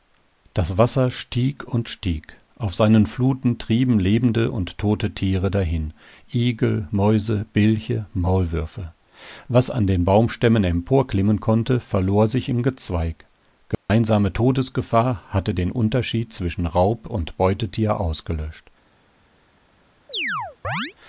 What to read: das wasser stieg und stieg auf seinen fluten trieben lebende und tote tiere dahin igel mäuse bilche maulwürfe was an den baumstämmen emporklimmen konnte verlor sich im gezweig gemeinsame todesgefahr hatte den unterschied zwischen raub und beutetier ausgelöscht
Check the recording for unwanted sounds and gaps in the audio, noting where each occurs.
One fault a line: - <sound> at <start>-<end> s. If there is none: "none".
- dropout at 13.7-13.9 s
- chirp at 20.1-20.9 s